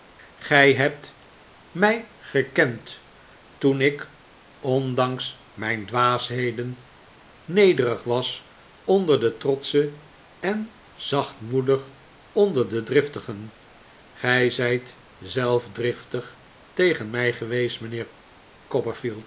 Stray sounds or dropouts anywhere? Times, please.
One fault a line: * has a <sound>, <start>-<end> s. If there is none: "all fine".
all fine